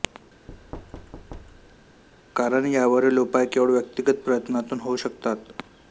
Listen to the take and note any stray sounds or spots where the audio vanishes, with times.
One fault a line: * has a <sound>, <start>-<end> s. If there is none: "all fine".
* has a thud, 0.5-2.0 s